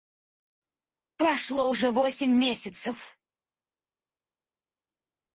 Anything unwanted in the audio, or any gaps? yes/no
no